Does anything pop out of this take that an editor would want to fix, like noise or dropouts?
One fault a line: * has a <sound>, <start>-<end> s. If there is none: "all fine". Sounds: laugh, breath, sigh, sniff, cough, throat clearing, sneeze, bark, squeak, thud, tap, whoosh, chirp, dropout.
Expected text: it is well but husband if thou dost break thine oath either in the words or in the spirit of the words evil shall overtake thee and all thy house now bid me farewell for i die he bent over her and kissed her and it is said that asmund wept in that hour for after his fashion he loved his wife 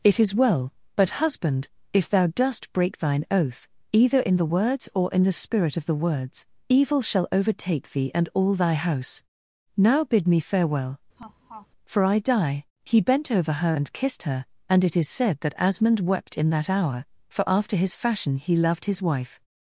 * has a laugh, 11.2-11.7 s